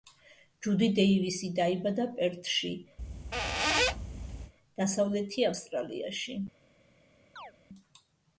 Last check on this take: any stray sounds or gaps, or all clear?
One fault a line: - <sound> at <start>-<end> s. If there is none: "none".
- squeak at 3.0-4.5 s
- chirp at 7.4-7.5 s